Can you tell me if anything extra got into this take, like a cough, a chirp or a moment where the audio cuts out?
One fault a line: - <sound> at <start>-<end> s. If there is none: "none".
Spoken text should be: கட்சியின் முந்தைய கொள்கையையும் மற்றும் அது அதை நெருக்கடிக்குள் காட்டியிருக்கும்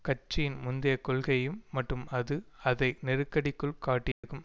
- dropout at 4.1-4.2 s